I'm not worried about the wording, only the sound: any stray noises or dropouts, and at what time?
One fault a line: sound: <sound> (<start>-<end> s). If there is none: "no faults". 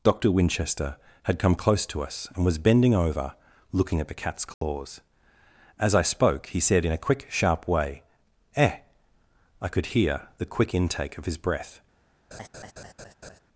sound: dropout (4.5-4.6 s)
sound: laugh (12.3-13.4 s)